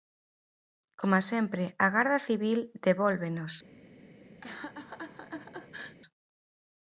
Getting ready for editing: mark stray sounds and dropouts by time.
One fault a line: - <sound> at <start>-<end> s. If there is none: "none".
- laugh at 4.4-6.0 s